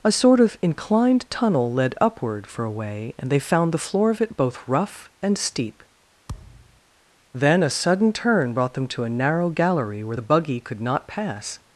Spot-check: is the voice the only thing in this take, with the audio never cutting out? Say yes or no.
no